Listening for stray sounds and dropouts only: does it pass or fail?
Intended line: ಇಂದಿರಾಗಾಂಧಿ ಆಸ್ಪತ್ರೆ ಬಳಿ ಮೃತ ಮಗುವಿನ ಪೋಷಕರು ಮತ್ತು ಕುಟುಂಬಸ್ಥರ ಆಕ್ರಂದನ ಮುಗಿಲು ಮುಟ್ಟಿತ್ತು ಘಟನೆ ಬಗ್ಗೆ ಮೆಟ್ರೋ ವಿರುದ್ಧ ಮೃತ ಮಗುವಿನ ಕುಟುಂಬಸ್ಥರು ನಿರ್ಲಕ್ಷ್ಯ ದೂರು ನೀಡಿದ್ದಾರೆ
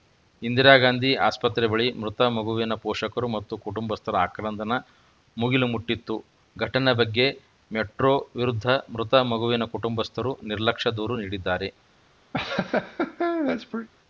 fail